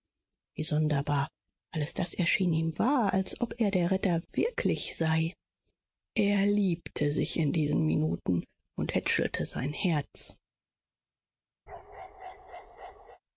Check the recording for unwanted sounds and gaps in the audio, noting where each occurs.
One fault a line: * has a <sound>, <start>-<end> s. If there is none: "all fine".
* has a bark, 11.7-13.2 s